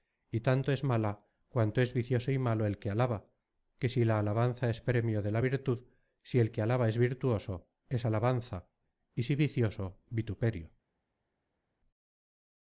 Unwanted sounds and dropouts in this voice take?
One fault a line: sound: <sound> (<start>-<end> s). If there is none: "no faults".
no faults